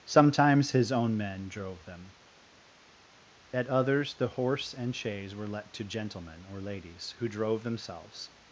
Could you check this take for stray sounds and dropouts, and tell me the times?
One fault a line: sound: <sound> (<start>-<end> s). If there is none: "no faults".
no faults